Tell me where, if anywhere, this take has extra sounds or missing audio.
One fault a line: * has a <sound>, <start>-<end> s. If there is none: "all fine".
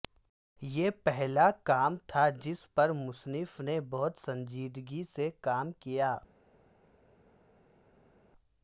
all fine